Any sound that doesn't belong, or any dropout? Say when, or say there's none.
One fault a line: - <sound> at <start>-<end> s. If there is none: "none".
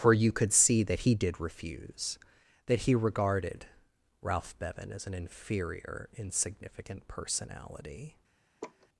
- laugh at 8.6-8.9 s